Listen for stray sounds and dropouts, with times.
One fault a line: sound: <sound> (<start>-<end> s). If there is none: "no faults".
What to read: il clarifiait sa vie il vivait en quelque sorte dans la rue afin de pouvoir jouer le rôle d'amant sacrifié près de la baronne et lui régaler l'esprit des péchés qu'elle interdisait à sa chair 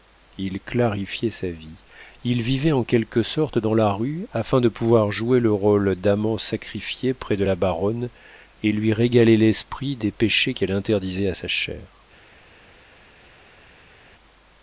no faults